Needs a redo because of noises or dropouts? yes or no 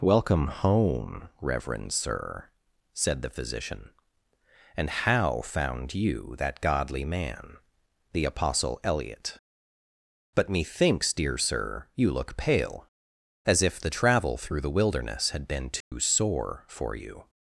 yes